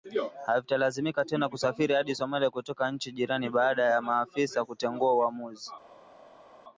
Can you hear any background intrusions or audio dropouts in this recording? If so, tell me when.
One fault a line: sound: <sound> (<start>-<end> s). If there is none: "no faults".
no faults